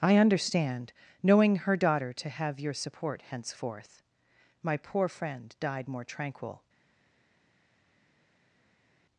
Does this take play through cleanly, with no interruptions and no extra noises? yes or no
yes